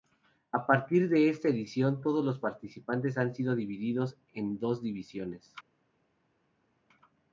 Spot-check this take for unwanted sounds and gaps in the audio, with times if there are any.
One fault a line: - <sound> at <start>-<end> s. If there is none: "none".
none